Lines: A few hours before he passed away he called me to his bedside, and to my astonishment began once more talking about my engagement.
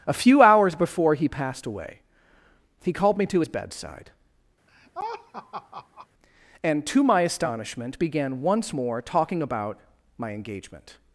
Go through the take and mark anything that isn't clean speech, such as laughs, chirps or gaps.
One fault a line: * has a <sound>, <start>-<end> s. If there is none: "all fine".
* has a laugh, 4.7-6.1 s